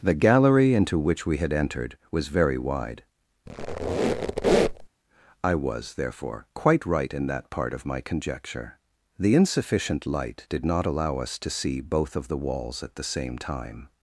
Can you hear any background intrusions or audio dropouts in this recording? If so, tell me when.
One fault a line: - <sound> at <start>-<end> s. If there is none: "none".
- squeak at 3.5-4.9 s